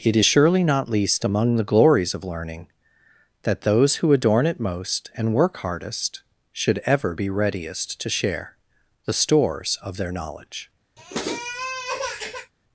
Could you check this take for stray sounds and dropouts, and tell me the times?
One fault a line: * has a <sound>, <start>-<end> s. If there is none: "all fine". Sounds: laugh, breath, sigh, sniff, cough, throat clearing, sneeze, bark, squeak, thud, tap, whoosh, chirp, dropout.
* has a sniff, 11.0-12.5 s